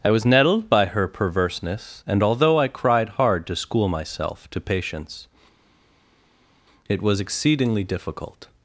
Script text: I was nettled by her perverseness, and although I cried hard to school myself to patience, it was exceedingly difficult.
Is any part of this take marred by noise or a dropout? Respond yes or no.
no